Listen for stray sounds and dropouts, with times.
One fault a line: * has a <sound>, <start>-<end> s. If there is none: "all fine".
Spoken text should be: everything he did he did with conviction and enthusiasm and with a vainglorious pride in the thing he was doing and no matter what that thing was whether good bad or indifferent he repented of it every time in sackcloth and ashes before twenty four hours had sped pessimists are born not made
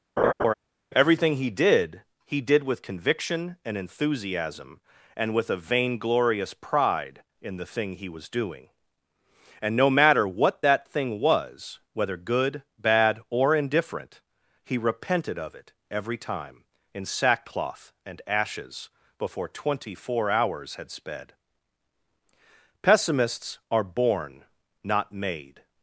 * has a laugh, 0.2-0.5 s